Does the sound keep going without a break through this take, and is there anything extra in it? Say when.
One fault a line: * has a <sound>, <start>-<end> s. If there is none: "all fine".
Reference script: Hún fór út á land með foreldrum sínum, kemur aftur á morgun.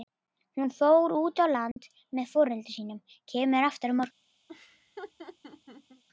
* has a dropout, 1.7-1.8 s
* has a laugh, 4.5-6.0 s